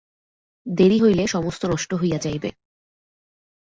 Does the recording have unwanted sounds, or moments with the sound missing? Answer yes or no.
no